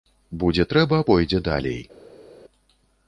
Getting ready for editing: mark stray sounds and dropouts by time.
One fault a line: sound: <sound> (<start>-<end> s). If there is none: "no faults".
no faults